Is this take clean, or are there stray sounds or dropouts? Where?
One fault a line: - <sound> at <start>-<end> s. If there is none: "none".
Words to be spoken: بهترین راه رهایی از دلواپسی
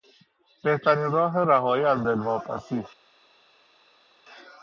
none